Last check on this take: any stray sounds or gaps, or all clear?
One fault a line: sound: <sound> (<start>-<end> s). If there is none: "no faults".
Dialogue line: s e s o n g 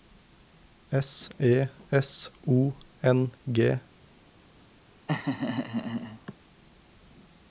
sound: laugh (5.1-6.3 s)